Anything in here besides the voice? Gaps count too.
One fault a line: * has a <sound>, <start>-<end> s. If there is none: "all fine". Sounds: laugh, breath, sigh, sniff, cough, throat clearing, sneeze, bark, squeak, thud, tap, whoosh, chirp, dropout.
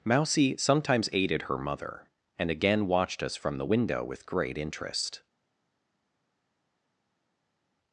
all fine